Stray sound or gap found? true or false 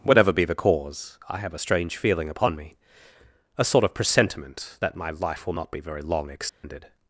true